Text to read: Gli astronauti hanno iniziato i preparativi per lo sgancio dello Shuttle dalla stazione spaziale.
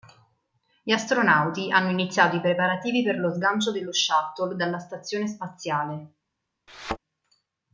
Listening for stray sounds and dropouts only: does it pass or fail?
fail